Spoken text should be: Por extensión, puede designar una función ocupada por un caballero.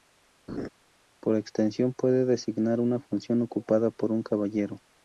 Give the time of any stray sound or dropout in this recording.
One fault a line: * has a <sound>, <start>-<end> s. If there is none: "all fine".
* has a laugh, 0.5-0.7 s